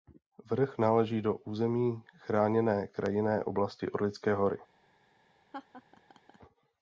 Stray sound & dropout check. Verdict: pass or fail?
fail